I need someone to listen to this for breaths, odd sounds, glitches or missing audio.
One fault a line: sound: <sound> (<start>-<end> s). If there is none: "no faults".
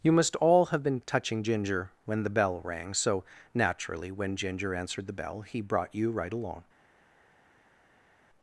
no faults